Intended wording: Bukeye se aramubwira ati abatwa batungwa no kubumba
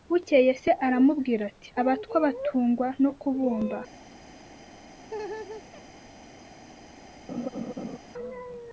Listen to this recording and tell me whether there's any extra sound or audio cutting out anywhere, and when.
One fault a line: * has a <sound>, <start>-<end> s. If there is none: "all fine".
* has a laugh, 5.0-5.8 s
* has a laugh, 7.3-8.0 s